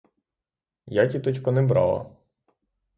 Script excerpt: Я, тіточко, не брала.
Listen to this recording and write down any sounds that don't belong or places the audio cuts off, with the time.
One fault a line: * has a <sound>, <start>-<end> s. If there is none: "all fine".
all fine